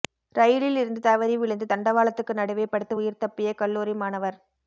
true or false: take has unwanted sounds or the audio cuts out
false